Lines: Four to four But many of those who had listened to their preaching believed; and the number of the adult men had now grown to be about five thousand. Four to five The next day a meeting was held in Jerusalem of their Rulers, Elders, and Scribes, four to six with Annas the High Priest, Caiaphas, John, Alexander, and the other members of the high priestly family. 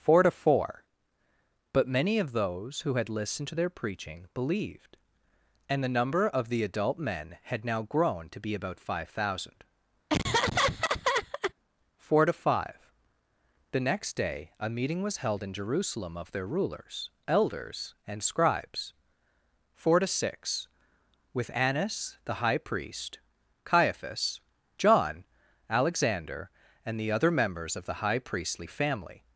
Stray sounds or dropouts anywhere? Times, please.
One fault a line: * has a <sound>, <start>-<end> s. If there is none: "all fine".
* has a laugh, 10.1-11.5 s